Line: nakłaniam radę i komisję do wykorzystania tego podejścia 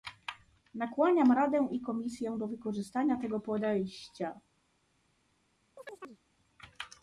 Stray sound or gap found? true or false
true